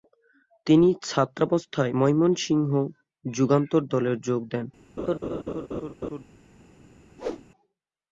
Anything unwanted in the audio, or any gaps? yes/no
yes